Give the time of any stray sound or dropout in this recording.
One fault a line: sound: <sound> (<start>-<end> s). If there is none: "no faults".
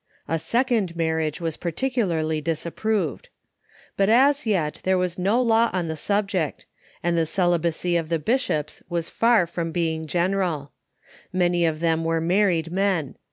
no faults